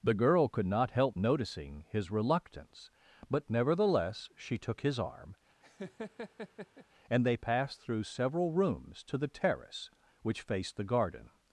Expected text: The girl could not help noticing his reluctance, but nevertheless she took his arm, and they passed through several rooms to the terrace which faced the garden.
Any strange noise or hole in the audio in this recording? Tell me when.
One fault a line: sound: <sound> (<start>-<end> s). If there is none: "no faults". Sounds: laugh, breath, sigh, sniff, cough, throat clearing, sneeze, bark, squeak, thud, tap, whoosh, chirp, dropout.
sound: laugh (5.6-6.9 s)